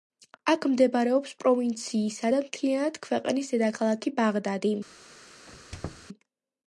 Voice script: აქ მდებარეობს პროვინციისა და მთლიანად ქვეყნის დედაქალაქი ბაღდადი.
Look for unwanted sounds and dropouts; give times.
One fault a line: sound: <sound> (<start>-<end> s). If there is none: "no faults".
sound: squeak (5.5-6.1 s)